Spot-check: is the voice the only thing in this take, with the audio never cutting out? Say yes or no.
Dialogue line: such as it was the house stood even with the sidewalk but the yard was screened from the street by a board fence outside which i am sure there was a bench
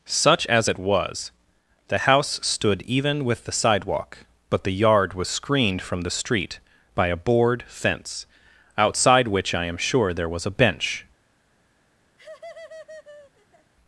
no